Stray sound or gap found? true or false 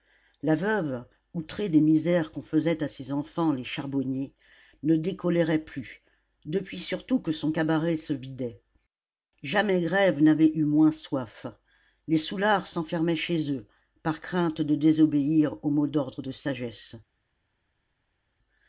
false